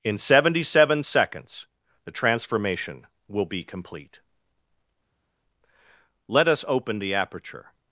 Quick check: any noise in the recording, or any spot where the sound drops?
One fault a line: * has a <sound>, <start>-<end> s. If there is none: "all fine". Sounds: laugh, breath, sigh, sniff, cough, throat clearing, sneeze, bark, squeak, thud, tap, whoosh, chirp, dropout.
all fine